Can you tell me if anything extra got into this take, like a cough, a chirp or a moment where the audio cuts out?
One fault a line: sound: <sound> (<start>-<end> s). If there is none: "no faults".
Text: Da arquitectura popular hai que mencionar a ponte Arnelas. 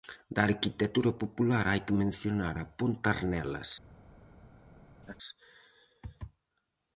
sound: laugh (5.0-5.2 s)